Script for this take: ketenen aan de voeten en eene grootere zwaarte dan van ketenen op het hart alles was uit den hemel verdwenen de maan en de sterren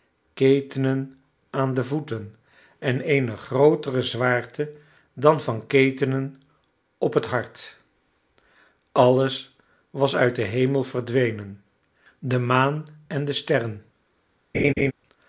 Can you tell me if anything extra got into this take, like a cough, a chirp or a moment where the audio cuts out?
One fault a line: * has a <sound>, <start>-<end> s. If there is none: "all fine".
* has a laugh, 14.5-14.9 s